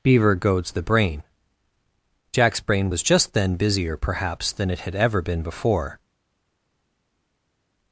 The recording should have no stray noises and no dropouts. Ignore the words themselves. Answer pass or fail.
pass